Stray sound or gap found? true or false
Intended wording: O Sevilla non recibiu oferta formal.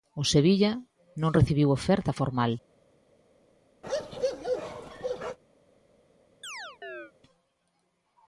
true